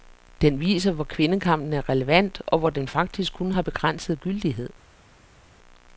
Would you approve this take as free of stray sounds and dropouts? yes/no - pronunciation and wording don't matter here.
yes